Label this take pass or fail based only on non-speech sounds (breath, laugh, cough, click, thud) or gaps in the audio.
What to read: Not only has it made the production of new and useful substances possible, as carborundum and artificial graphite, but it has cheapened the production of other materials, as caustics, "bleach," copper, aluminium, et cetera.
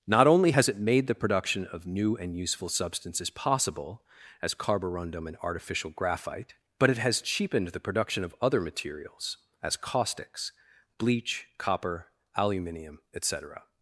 pass